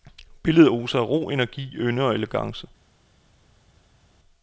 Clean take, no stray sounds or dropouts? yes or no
yes